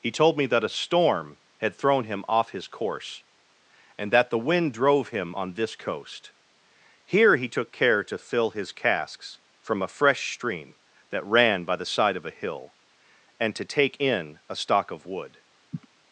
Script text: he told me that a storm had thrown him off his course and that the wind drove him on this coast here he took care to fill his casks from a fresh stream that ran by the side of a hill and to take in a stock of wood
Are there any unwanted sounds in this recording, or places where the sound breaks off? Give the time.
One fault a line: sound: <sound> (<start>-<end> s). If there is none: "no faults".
sound: sniff (15.7-15.9 s)